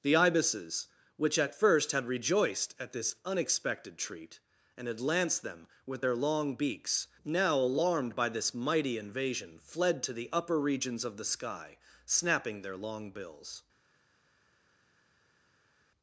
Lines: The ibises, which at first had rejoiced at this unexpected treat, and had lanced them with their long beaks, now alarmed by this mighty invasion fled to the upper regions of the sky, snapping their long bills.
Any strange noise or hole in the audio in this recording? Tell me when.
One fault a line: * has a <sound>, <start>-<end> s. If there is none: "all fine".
all fine